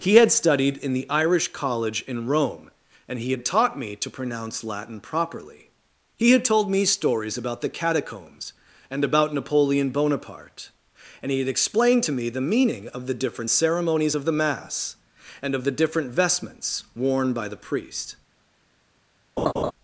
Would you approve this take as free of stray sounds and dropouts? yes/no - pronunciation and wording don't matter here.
no